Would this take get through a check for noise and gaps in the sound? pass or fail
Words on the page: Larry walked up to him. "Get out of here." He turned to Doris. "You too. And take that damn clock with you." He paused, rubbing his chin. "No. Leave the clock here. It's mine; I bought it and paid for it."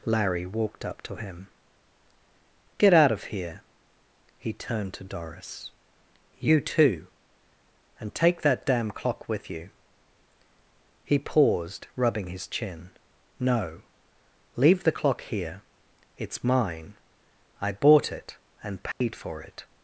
fail